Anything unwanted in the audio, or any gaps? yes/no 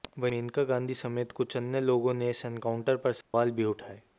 yes